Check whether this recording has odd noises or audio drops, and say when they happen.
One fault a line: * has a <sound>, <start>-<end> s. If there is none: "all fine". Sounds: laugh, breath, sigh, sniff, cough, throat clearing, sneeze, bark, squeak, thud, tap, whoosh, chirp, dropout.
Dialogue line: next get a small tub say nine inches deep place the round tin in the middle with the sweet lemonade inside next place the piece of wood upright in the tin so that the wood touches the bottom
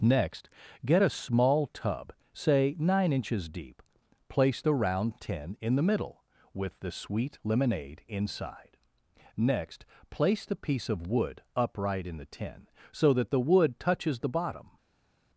all fine